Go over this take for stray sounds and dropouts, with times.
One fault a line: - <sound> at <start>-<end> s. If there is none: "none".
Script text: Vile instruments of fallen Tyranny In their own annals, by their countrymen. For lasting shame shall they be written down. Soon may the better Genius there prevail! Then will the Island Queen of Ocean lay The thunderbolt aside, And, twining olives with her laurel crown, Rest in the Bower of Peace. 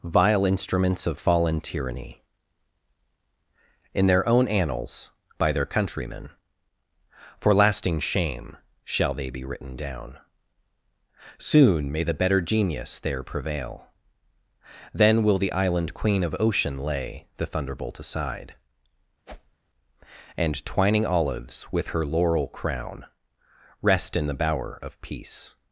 - whoosh at 19.3-19.6 s